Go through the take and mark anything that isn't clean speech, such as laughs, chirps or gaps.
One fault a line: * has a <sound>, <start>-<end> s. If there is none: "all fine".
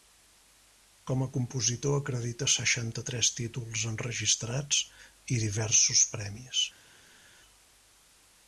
all fine